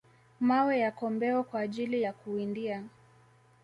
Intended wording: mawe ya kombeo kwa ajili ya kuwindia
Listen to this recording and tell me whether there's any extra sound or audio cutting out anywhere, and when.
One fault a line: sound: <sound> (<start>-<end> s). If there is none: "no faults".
no faults